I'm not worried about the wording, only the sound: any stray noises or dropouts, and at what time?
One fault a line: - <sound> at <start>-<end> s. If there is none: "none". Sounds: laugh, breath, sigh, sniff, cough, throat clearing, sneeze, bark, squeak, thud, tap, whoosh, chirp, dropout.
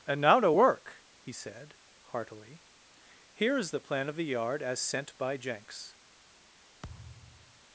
- thud at 6.8-7.6 s